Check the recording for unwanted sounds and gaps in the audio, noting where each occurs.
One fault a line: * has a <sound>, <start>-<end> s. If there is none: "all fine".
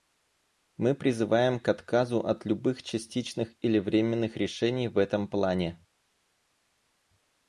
all fine